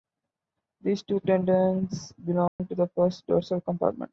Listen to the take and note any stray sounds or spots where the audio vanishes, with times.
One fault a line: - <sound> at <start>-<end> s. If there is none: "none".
- dropout at 2.5-2.6 s